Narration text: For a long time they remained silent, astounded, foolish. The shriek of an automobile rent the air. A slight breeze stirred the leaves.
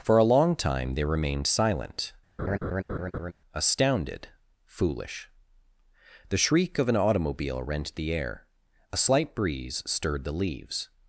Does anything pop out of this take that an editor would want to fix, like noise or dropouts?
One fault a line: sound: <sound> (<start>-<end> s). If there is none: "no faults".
sound: laugh (2.4-3.3 s)